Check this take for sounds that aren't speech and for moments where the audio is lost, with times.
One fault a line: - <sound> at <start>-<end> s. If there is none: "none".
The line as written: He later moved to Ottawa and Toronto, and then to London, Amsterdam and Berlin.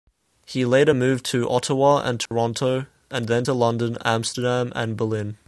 - dropout at 2.3-2.3 s